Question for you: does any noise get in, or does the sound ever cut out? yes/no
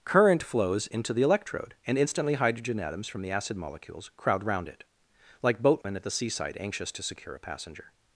yes